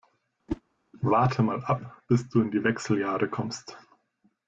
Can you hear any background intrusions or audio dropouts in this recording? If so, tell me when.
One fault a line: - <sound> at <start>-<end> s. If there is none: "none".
- whoosh at 0.5-0.6 s